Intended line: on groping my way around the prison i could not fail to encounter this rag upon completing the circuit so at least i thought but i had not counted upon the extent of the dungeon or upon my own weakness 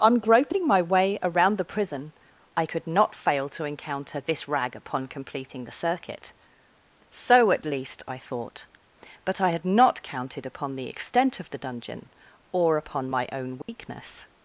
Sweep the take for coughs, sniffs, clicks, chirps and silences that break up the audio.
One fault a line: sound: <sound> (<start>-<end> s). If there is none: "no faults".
sound: dropout (13.6-13.7 s)